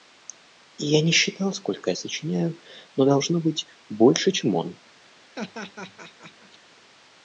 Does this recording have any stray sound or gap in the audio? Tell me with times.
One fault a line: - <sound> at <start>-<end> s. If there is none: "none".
- laugh at 5.3-6.6 s